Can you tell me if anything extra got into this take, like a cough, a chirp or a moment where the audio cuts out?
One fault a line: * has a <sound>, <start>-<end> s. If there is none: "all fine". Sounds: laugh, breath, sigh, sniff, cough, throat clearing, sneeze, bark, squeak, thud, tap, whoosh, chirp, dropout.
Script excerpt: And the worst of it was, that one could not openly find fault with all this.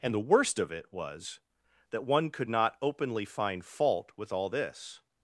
all fine